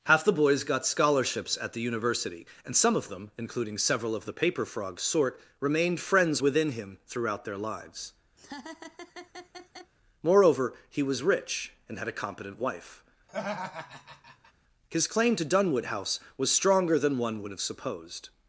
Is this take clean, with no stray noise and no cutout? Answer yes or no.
no